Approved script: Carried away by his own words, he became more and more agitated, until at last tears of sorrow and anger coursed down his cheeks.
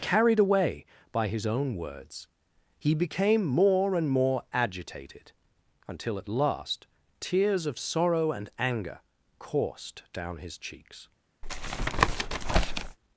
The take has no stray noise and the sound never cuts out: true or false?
false